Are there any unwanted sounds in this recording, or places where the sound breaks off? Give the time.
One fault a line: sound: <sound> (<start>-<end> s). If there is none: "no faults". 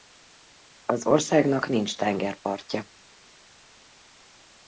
no faults